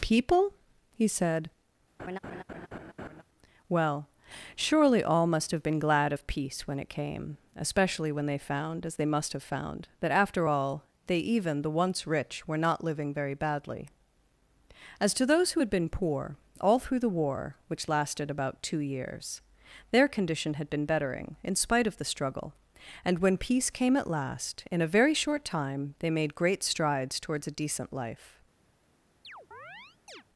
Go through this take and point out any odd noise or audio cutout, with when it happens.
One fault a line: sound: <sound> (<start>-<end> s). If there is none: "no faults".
sound: laugh (2.0-3.2 s)
sound: chirp (29.2-30.2 s)